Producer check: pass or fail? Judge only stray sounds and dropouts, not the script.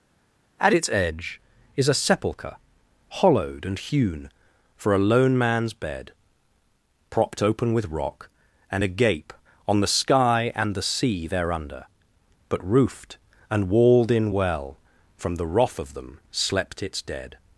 pass